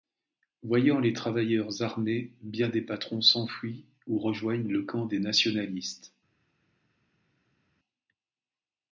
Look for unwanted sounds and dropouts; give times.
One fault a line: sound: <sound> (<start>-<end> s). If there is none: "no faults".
no faults